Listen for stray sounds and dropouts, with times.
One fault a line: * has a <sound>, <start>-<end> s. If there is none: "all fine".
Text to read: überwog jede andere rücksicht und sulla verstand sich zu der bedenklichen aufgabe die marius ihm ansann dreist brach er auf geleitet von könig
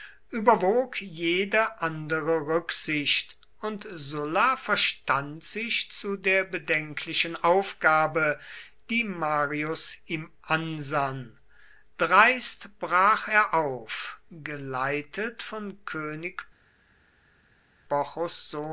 all fine